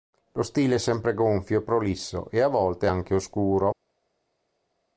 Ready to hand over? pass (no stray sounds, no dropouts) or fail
pass